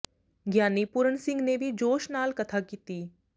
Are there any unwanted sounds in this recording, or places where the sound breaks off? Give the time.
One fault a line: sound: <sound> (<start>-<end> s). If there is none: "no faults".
no faults